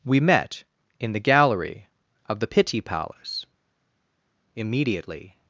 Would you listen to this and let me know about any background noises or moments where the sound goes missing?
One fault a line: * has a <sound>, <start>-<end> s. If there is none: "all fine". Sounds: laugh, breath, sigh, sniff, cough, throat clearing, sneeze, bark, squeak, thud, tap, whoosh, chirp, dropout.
all fine